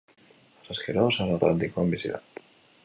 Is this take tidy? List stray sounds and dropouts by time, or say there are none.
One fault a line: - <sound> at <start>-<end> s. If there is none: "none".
none